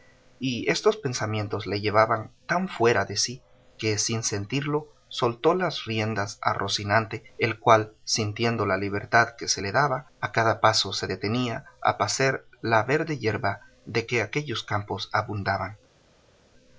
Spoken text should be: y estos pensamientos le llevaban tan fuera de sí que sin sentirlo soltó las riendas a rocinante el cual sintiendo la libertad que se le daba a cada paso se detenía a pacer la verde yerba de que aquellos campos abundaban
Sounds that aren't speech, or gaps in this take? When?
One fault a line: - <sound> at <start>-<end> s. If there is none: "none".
none